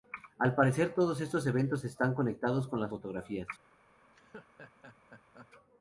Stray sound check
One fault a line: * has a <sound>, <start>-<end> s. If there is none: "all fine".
* has a laugh, 4.0-5.5 s